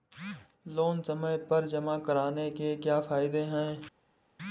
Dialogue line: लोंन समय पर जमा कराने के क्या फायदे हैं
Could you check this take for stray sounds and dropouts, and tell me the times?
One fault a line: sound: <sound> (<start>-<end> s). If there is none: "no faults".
no faults